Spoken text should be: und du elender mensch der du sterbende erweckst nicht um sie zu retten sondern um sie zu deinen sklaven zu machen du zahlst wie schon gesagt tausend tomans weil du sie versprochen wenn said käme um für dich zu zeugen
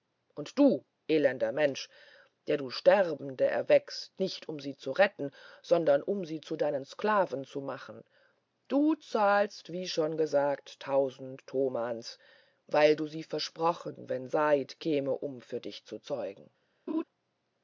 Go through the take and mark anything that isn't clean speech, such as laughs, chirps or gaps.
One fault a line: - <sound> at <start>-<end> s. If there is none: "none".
- laugh at 16.9-17.0 s